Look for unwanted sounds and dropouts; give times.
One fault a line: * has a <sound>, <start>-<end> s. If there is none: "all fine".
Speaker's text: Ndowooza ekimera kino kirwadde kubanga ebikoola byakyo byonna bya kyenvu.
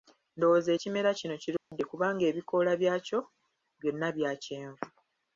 * has a dropout, 1.6-1.7 s